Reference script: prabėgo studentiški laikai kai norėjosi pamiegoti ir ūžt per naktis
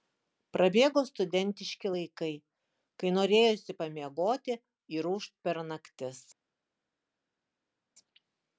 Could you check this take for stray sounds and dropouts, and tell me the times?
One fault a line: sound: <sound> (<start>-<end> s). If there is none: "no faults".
no faults